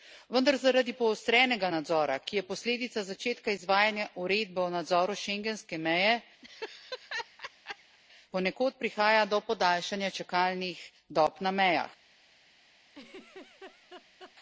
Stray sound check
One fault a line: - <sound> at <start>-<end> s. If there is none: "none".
- laugh at 6.4-8.0 s
- laugh at 12.9-14.3 s